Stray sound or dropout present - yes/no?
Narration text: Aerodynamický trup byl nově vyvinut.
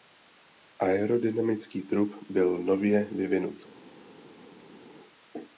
no